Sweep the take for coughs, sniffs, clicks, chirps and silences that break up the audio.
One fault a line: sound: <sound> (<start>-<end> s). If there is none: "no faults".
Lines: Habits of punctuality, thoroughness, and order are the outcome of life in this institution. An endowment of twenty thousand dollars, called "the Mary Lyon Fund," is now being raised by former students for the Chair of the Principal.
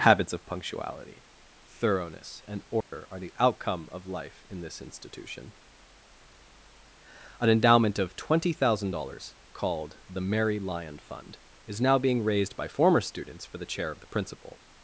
sound: dropout (2.8-2.9 s)